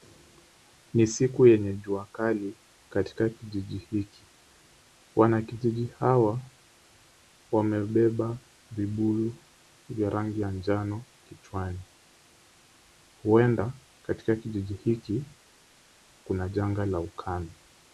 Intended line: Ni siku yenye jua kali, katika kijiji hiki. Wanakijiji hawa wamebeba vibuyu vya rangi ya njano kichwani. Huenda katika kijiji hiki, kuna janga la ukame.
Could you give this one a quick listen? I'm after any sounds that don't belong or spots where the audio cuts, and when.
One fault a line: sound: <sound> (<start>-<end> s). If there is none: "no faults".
no faults